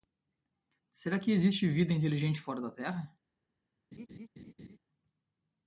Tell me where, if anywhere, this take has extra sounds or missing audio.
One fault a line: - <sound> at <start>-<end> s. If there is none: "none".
- laugh at 3.9-4.8 s